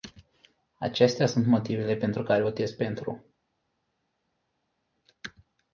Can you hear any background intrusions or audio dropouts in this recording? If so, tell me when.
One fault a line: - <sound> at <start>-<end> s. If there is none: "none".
none